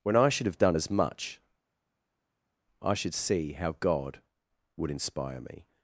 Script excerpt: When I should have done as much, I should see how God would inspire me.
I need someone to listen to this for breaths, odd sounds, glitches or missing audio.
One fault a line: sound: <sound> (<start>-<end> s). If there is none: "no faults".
no faults